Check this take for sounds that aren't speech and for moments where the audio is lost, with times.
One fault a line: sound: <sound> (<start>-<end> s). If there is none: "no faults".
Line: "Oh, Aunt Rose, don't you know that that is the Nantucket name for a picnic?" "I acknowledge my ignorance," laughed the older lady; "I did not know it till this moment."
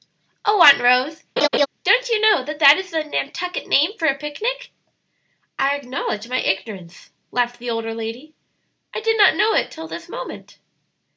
sound: laugh (1.4-1.7 s)